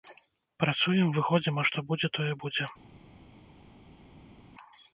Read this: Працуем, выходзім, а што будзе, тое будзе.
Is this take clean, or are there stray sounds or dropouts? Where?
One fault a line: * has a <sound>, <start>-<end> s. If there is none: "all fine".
all fine